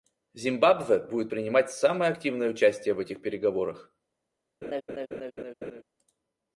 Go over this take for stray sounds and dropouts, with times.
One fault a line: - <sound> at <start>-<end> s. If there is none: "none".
- laugh at 4.6-5.8 s